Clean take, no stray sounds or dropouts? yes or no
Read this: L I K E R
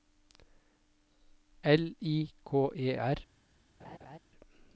no